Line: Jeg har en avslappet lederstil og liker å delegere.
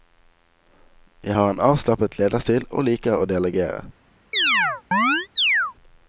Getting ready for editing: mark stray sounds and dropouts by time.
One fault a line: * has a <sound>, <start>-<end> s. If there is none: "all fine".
* has a chirp, 4.3-5.7 s